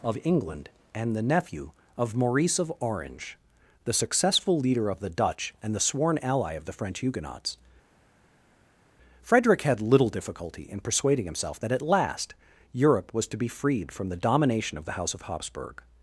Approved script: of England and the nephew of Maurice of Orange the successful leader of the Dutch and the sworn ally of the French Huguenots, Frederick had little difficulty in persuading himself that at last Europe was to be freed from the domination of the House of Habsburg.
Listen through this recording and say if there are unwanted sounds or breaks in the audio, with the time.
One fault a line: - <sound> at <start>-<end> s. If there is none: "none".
none